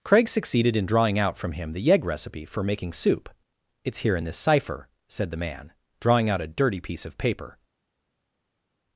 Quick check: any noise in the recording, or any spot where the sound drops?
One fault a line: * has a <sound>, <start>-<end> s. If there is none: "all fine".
all fine